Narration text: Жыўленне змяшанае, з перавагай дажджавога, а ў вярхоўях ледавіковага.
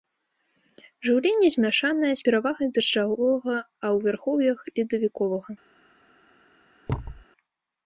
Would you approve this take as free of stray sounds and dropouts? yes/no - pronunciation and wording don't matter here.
no